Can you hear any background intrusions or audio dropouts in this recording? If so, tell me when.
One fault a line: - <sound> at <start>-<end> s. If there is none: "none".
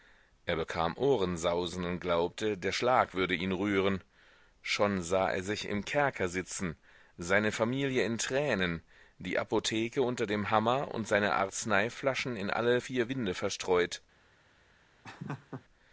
- laugh at 15.0-15.7 s